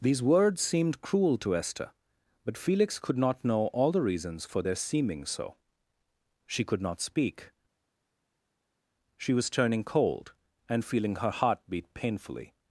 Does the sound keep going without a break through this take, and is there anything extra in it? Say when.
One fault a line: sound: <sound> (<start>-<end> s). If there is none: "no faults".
no faults